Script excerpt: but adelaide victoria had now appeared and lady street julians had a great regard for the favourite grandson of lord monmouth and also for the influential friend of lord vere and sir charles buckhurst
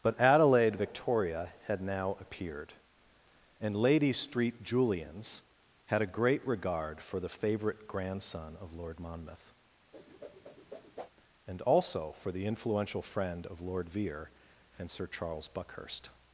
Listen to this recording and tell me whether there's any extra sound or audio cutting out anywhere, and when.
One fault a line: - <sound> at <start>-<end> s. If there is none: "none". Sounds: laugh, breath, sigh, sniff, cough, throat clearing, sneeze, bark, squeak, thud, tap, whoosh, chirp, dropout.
- whoosh at 9.9-11.1 s